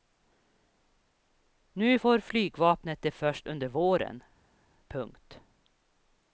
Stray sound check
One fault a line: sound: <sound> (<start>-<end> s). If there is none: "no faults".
no faults